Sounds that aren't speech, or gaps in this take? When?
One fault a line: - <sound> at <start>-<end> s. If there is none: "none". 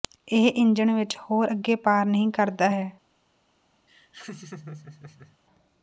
- laugh at 3.9-5.4 s